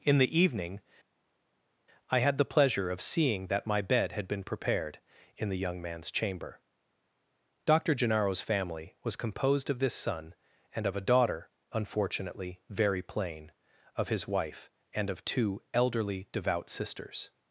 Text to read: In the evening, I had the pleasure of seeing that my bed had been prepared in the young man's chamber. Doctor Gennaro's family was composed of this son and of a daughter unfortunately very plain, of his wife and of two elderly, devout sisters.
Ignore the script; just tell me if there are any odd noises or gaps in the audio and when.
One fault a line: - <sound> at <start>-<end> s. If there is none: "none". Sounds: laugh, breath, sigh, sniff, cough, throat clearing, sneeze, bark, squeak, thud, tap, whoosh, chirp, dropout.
none